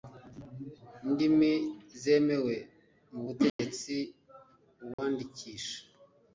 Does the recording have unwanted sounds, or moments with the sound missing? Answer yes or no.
yes